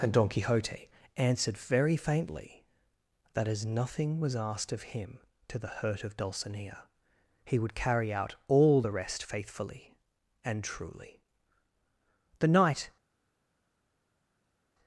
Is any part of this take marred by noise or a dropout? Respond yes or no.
no